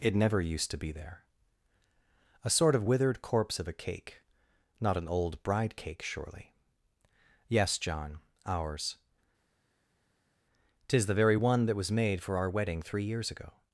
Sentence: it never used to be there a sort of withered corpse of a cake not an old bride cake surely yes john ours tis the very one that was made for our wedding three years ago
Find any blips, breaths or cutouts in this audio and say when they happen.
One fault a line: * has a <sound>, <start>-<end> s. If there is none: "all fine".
all fine